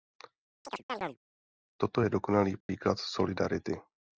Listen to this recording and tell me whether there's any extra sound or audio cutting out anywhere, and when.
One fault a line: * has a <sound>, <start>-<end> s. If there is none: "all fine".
* has a chirp, 0.6-1.2 s
* has a dropout, 2.6-2.7 s